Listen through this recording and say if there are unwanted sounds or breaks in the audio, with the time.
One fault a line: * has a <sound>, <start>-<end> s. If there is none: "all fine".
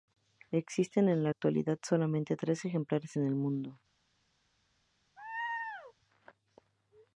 * has a laugh, 5.2-5.9 s